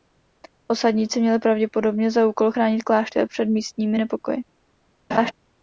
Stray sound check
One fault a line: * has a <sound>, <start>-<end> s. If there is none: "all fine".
* has a laugh, 5.1-5.3 s